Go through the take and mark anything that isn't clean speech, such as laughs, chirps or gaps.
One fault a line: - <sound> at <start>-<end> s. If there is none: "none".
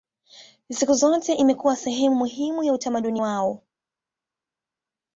none